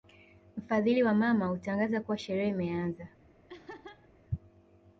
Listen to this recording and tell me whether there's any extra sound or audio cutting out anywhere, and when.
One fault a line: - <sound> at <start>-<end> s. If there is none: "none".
- laugh at 3.5-4.1 s